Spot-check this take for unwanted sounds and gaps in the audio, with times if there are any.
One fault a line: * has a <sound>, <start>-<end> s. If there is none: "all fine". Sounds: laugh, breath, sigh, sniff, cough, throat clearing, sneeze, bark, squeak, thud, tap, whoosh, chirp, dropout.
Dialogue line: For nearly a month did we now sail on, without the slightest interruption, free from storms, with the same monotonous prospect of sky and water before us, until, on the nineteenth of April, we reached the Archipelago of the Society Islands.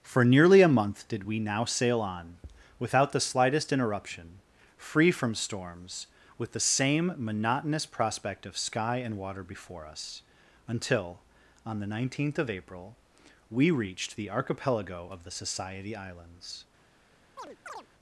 * has a chirp, 17.4-17.9 s